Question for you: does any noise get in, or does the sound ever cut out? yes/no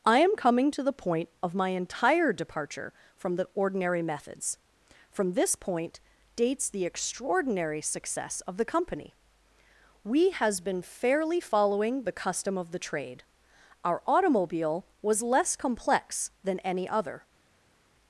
no